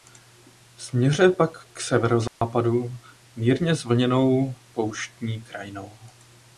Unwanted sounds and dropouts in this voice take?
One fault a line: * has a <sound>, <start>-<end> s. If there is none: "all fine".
* has a dropout, 2.3-2.4 s